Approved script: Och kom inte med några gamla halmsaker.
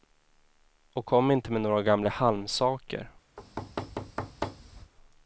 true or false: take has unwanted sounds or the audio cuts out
true